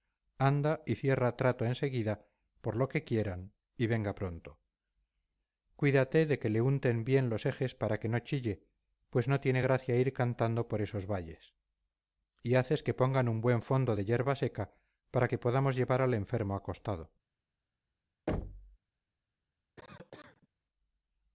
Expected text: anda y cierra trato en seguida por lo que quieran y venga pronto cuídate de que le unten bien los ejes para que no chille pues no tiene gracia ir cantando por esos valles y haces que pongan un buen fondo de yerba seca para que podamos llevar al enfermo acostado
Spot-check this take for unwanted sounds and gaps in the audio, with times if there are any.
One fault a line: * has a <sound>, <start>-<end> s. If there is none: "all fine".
* has a thud, 18.3-18.8 s
* has a cough, 19.8-20.5 s